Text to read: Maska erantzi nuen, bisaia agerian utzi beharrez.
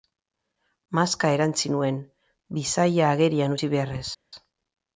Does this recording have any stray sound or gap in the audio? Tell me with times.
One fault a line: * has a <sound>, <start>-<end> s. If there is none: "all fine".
all fine